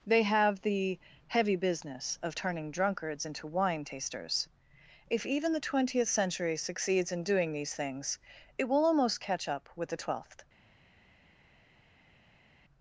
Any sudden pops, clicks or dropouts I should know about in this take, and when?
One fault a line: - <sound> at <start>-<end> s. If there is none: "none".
none